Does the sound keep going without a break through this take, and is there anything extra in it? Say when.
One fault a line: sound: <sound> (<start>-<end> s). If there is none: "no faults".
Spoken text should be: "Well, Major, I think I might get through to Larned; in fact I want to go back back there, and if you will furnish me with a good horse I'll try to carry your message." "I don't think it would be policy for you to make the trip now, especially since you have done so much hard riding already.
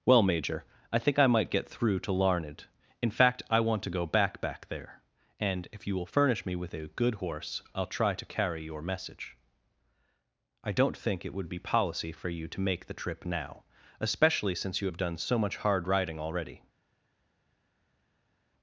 no faults